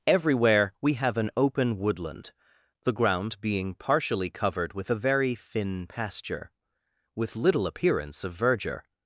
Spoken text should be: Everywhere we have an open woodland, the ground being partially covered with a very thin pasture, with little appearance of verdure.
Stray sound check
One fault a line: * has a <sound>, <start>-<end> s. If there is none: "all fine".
all fine